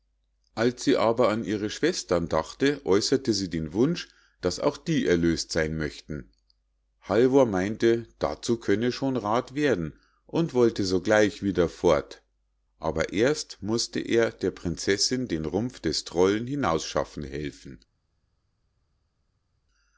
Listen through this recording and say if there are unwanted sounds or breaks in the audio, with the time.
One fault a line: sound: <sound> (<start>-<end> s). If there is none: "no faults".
no faults